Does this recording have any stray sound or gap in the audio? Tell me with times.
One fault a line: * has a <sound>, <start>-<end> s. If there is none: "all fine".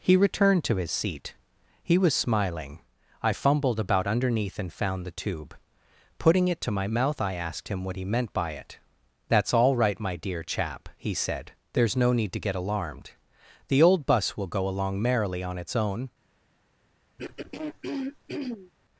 * has a throat clearing, 17.2-18.7 s